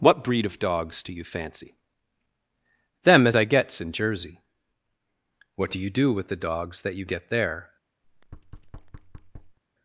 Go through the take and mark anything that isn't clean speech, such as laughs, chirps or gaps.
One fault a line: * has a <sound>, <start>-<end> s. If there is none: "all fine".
* has a thud, 8.0-9.6 s